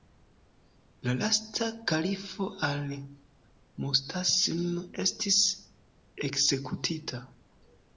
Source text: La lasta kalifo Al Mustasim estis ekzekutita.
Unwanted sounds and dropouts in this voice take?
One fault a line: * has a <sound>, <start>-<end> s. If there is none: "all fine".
all fine